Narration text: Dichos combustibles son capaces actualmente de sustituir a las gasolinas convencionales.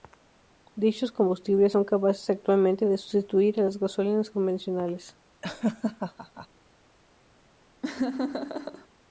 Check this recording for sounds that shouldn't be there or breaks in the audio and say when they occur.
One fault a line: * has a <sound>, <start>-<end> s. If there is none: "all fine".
* has a laugh, 5.4-6.5 s
* has a laugh, 7.8-8.9 s